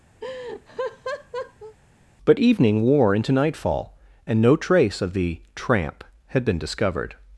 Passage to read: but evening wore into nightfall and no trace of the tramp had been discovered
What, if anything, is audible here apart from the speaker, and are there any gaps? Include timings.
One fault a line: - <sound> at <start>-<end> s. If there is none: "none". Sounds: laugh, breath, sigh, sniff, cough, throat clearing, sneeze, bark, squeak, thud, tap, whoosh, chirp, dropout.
- laugh at 0.2-1.8 s